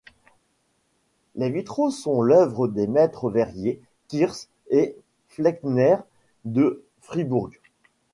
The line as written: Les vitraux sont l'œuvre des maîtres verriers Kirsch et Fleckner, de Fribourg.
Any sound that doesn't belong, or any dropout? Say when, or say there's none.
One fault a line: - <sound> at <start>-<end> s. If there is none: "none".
none